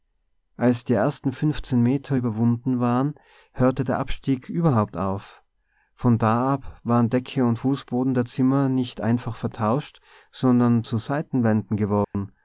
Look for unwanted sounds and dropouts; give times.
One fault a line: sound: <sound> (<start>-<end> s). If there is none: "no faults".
sound: dropout (12.0-12.1 s)